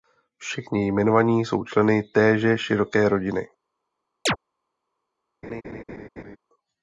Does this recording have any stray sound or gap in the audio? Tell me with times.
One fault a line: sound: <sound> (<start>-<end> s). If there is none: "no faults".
sound: chirp (4.3-4.4 s)
sound: laugh (5.4-6.4 s)